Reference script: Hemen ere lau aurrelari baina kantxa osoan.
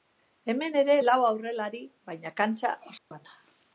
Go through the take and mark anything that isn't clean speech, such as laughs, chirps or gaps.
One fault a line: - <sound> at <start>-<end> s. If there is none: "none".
- dropout at 3.0-3.1 s